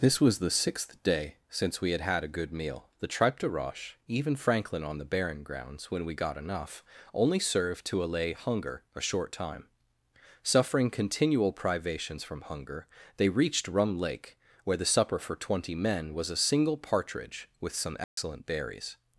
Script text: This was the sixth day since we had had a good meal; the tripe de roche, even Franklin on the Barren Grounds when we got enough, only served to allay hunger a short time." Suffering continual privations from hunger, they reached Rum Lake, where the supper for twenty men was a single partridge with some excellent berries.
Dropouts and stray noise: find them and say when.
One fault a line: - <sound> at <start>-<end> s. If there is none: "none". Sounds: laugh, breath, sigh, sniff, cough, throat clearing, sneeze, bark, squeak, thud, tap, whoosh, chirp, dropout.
- dropout at 18.0-18.2 s